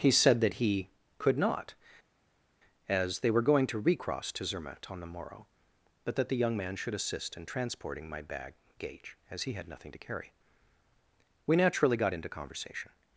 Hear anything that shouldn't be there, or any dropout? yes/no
no